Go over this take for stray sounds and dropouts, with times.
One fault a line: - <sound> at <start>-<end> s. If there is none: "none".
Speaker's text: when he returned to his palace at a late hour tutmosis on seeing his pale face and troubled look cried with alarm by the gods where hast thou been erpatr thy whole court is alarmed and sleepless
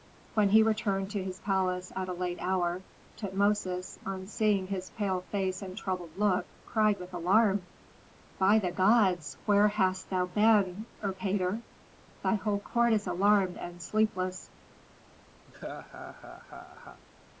- laugh at 15.5-17.0 s